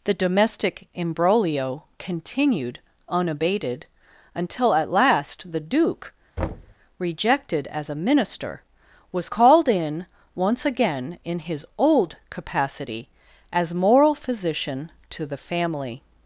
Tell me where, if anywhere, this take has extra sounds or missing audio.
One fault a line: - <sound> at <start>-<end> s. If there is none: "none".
- thud at 6.4-6.7 s